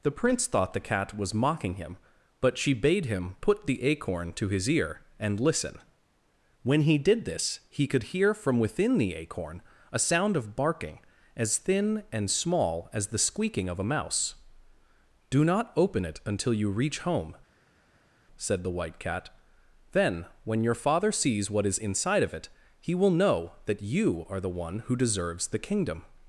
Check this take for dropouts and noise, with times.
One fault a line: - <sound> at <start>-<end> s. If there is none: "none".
none